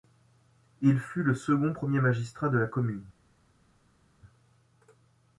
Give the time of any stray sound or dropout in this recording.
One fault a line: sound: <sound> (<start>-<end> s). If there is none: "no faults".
no faults